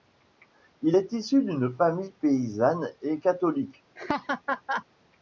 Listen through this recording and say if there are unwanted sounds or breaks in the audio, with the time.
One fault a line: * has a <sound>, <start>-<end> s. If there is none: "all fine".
* has a laugh, 4.0-4.9 s